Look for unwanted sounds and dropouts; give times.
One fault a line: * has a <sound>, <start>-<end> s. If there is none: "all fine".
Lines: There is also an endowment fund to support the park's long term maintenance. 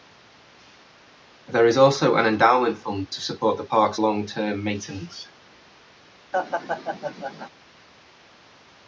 * has a laugh, 6.3-7.5 s